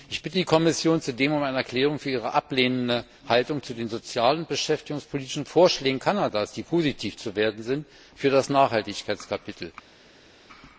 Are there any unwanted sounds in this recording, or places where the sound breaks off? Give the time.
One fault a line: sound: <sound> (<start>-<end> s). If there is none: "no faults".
no faults